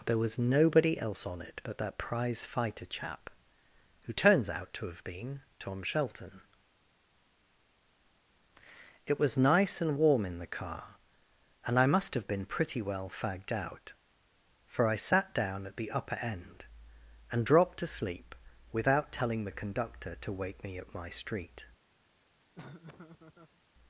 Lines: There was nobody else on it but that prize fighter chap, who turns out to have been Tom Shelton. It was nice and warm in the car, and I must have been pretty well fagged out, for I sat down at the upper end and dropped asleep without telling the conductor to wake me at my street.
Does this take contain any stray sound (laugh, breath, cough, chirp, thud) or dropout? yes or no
yes